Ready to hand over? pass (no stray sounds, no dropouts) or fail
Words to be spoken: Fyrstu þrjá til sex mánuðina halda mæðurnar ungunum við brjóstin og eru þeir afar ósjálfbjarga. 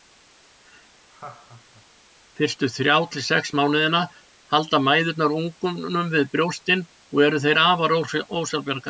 fail